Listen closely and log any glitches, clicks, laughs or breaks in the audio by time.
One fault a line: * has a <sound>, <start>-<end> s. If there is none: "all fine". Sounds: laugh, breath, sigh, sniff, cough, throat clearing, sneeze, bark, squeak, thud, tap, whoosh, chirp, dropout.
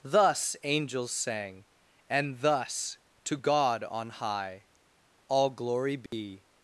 * has a dropout, 6.1-6.1 s